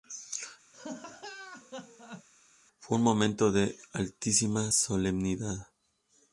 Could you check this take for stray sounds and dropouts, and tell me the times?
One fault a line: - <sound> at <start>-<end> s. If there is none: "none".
- laugh at 0.7-2.3 s